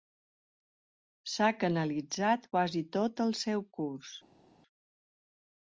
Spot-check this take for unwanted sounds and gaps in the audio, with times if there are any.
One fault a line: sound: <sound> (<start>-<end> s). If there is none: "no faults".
no faults